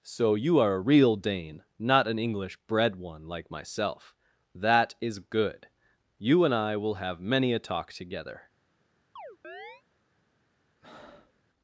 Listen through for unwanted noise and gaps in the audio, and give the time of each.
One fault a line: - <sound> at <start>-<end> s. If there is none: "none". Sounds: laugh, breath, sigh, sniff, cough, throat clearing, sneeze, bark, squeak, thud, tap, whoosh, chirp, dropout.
- chirp at 9.2-9.8 s
- breath at 10.8-11.4 s